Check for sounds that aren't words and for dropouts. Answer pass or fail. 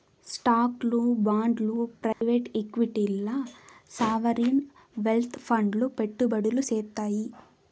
fail